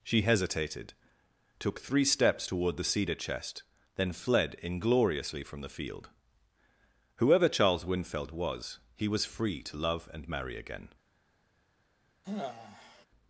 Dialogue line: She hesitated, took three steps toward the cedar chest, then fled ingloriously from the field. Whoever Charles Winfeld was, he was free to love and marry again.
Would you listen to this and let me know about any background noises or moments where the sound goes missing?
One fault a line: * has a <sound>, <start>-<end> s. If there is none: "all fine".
* has a sigh, 12.2-13.1 s